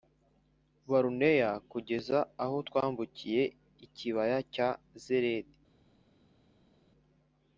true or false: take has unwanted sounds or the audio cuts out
false